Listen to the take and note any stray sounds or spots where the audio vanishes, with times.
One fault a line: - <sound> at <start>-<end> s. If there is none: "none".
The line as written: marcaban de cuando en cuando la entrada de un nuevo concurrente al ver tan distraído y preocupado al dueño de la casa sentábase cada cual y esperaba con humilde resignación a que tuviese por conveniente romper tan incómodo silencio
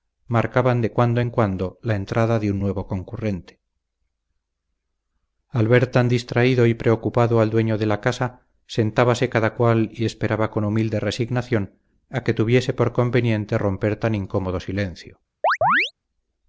- chirp at 15.4-15.9 s